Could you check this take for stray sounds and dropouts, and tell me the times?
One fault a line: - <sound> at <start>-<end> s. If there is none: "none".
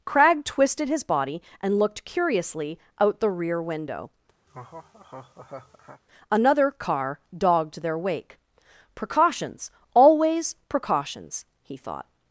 - laugh at 4.5-6.0 s